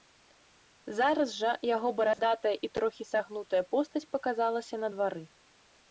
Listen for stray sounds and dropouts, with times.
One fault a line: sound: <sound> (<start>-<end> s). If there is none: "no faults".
sound: dropout (2.1-2.2 s)